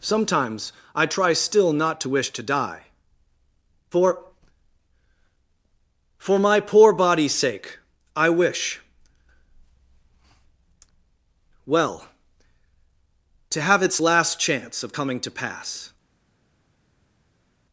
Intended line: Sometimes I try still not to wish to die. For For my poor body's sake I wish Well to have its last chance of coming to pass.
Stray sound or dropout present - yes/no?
no